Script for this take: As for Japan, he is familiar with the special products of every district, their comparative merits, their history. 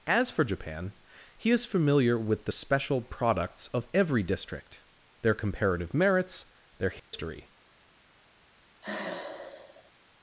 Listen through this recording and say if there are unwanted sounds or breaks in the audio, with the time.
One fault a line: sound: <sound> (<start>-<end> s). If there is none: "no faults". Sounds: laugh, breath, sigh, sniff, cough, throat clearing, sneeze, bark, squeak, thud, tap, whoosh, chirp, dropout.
sound: dropout (7.0-7.1 s)
sound: sigh (8.8-9.9 s)